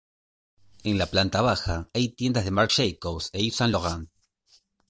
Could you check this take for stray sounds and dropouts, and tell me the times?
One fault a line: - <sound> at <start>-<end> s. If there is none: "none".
none